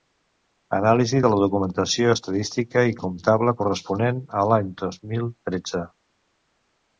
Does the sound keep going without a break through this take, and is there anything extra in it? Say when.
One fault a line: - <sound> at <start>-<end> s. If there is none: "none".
none